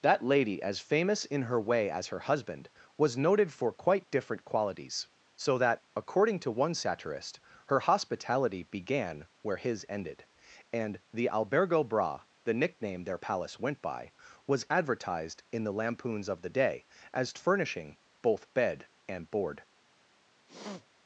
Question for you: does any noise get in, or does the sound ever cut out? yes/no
yes